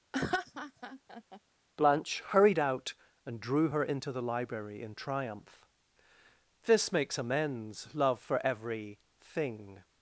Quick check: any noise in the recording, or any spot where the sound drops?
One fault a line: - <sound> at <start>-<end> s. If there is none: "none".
- laugh at 0.1-1.4 s